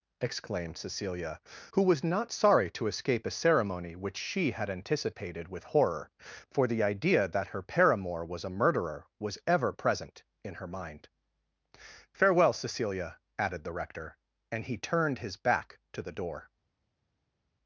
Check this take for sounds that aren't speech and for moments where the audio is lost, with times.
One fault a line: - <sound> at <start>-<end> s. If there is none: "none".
none